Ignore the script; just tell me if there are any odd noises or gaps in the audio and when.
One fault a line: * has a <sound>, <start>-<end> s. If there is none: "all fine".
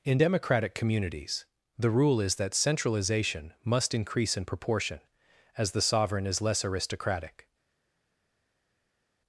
all fine